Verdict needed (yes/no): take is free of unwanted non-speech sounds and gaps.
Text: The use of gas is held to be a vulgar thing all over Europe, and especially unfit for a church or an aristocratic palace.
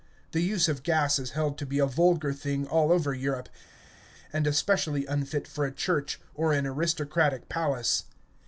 yes